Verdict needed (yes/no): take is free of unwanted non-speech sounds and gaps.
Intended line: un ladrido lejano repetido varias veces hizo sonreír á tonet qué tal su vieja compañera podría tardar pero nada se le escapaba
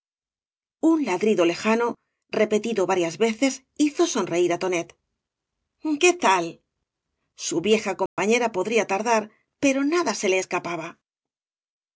no